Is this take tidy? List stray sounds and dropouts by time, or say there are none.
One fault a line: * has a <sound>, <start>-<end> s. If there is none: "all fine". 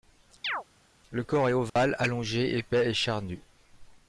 * has a chirp, 0.4-0.6 s
* has a dropout, 1.7-1.8 s